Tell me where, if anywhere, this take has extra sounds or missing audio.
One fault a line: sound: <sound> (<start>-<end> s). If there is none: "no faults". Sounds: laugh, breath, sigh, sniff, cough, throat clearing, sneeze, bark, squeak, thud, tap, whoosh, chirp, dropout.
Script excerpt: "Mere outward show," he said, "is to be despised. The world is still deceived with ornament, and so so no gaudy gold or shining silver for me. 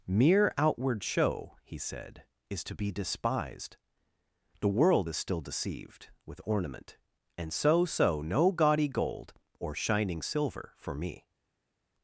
no faults